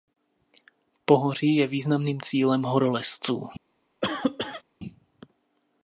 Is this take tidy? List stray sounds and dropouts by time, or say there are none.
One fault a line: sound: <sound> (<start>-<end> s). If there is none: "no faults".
sound: cough (4.0-4.6 s)